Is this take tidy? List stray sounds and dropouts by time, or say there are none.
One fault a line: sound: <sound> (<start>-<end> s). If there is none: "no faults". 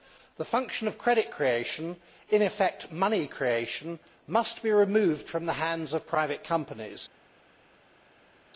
no faults